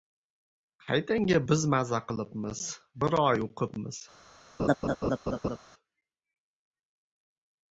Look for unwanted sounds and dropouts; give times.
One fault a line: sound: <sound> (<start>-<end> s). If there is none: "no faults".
sound: laugh (4.6-5.6 s)